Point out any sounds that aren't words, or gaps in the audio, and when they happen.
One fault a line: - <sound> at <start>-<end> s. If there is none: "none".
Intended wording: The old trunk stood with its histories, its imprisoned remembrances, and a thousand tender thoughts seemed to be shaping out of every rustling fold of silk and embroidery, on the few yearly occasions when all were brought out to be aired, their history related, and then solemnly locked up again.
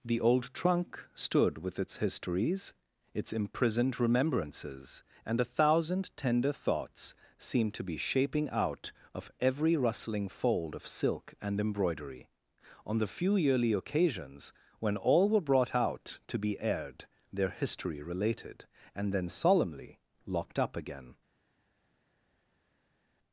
none